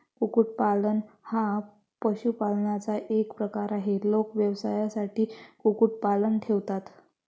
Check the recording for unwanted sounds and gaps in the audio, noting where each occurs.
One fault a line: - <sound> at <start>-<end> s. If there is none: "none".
none